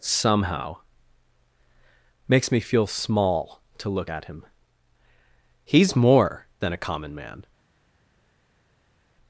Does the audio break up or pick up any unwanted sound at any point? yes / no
no